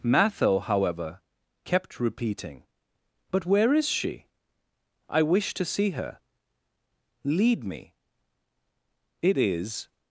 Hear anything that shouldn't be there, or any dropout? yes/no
no